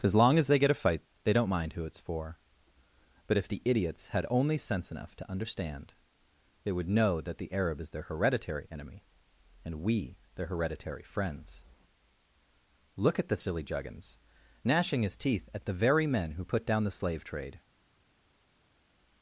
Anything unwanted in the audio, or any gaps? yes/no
no